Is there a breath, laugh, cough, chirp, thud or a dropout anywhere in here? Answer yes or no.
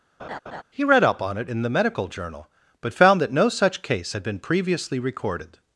yes